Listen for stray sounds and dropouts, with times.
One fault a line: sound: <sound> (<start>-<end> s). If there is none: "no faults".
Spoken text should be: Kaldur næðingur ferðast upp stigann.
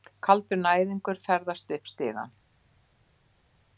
no faults